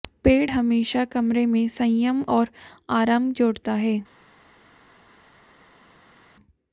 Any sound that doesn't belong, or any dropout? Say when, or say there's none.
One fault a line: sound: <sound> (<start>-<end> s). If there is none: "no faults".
no faults